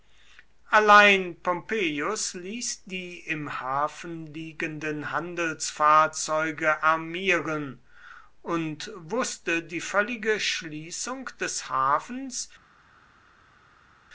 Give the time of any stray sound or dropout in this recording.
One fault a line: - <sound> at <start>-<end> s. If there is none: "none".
none